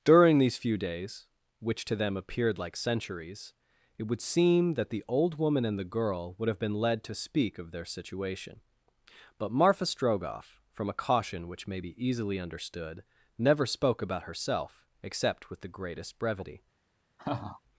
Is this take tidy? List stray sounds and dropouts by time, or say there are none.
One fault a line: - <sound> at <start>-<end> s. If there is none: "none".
- laugh at 17.2-17.6 s